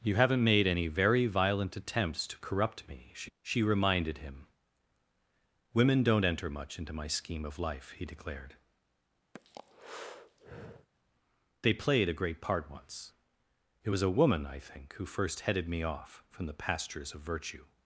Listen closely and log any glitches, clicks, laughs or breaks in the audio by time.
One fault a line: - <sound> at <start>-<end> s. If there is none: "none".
- breath at 9.3-10.9 s